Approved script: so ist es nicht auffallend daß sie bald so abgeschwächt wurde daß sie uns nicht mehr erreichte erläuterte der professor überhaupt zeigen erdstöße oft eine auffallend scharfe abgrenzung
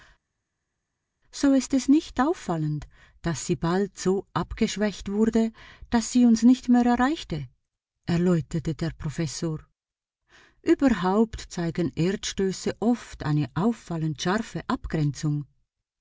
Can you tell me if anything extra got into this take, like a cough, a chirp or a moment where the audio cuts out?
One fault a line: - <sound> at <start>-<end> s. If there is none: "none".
none